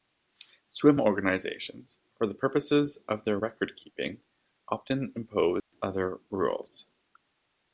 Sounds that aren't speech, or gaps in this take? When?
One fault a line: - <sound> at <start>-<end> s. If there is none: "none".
- dropout at 5.6-5.7 s